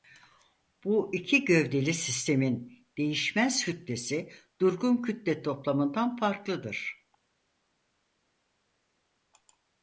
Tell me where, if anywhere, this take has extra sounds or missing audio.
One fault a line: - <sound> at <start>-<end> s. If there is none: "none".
none